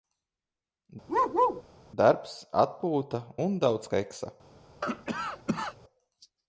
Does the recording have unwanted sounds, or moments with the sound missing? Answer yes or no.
yes